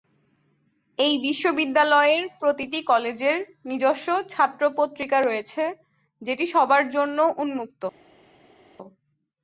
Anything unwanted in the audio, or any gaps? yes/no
no